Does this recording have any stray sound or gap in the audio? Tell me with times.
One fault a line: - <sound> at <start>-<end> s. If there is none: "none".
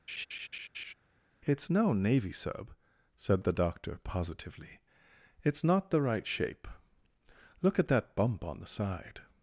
- laugh at 0.1-0.9 s